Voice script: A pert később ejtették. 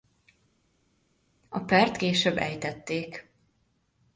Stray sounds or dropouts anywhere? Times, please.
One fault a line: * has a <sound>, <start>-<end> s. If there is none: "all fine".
all fine